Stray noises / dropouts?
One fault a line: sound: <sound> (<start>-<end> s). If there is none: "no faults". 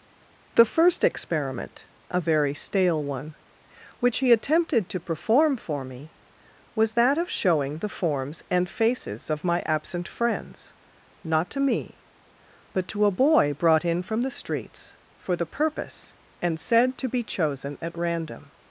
no faults